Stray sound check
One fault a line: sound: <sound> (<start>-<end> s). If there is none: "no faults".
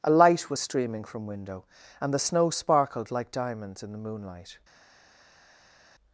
no faults